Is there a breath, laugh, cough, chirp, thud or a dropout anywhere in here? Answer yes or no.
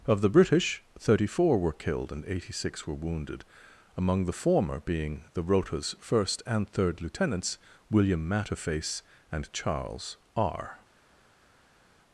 no